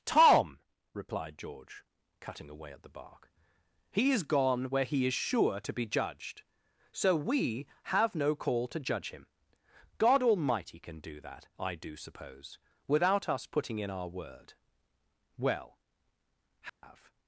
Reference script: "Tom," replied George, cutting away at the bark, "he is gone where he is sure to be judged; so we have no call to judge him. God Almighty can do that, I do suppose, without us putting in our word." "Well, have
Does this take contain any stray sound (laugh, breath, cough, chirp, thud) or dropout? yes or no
yes